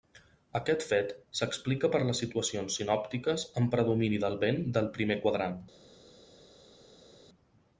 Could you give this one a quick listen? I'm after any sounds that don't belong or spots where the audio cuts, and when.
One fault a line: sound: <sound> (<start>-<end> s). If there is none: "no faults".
no faults